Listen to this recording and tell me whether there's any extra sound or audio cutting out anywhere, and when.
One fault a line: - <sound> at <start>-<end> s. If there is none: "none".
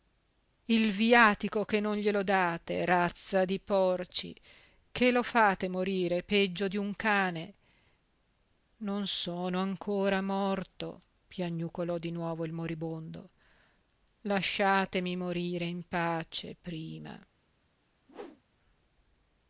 - whoosh at 18.1-18.4 s